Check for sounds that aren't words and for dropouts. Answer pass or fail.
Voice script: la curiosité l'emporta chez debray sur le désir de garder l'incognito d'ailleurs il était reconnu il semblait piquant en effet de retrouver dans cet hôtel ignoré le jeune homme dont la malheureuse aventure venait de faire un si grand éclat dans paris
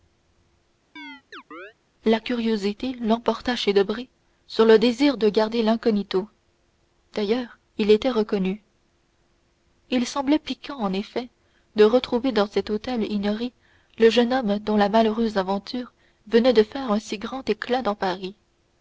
fail